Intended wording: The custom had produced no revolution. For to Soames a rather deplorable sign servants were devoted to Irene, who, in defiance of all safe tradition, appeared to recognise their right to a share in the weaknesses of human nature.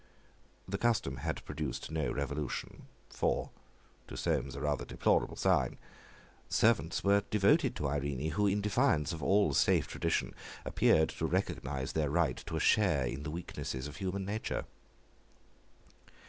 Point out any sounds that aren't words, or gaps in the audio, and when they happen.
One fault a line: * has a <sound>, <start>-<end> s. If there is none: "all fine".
all fine